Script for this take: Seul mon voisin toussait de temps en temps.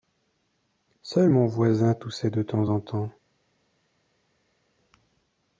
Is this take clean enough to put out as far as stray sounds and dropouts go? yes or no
yes